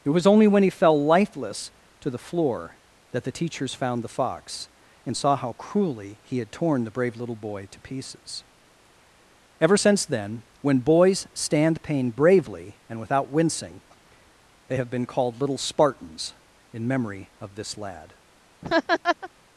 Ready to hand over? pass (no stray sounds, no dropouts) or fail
fail